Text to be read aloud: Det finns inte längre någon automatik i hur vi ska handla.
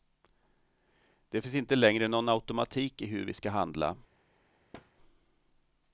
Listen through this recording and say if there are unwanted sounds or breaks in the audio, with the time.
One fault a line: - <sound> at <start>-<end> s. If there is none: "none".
- thud at 4.7-4.9 s